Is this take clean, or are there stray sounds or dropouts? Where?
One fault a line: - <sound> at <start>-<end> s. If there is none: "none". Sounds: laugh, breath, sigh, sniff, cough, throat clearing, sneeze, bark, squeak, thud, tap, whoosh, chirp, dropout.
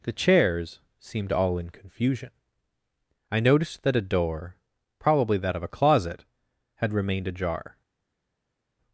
none